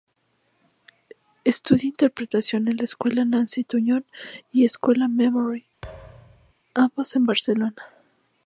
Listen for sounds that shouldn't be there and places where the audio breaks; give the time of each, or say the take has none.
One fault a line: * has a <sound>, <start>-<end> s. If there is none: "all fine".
* has a thud, 5.8-6.5 s